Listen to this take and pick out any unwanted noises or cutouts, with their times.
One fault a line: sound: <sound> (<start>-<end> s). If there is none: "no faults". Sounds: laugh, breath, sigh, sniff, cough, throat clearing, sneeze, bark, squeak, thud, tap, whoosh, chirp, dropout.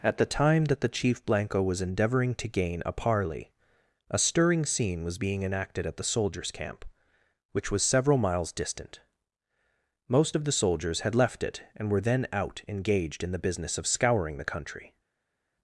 no faults